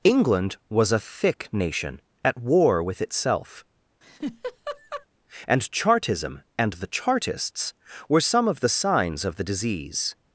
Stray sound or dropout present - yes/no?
yes